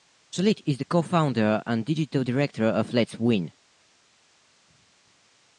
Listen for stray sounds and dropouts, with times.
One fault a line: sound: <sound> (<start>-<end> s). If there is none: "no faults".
no faults